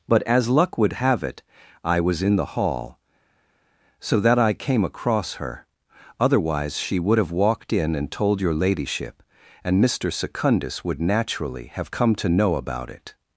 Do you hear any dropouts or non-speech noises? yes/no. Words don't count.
no